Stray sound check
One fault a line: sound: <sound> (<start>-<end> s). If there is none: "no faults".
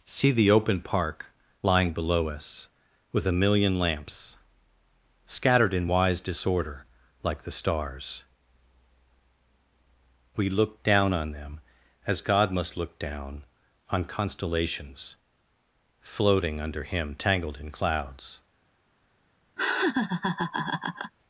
sound: laugh (19.6-21.1 s)